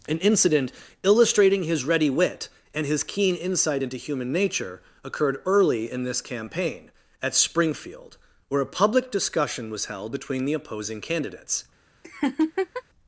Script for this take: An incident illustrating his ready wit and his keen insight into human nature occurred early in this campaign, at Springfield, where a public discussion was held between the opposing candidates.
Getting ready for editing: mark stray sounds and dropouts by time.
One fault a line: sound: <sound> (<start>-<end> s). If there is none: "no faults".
sound: laugh (12.0-12.8 s)